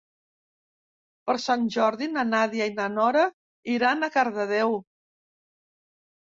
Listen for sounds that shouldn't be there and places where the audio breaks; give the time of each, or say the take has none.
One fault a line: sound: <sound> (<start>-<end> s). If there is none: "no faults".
no faults